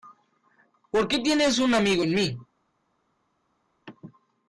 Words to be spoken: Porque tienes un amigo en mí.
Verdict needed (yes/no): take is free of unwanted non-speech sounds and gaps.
yes